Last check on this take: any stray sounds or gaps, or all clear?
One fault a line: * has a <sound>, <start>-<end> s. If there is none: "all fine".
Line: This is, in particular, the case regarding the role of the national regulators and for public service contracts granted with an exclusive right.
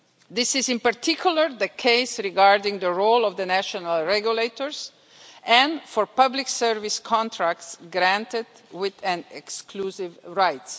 all fine